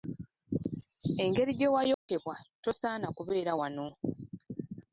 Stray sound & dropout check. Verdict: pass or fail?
fail